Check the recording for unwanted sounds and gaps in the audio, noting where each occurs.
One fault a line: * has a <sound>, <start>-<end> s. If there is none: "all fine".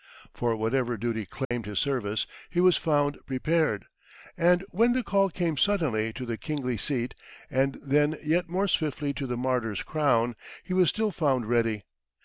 * has a dropout, 1.4-1.5 s